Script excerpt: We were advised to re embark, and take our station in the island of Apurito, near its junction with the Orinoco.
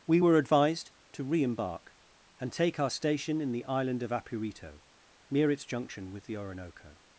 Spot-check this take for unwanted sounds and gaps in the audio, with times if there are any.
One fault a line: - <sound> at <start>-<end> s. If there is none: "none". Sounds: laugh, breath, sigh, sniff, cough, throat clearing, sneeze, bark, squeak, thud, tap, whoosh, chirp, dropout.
none